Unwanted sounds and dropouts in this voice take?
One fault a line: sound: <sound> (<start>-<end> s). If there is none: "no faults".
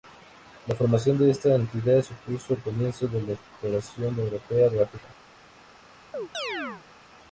sound: chirp (6.1-6.8 s)